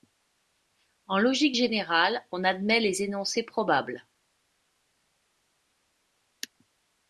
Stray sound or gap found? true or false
false